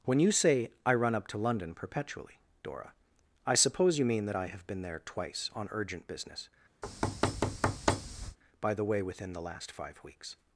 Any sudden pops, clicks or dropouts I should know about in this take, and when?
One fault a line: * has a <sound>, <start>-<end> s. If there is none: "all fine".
* has a thud, 6.8-8.4 s